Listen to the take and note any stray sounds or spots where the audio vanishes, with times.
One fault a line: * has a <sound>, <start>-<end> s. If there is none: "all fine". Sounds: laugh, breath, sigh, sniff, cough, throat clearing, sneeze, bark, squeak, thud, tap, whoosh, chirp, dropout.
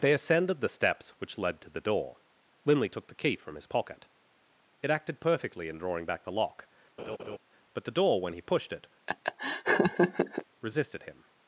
* has a laugh, 7.0-7.4 s
* has a laugh, 9.1-10.4 s